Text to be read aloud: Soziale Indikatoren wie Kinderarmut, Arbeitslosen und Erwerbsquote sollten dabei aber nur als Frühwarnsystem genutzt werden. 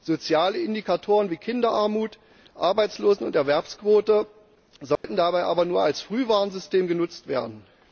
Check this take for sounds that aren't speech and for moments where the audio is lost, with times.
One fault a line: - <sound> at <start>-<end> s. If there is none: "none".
- dropout at 5.0-5.0 s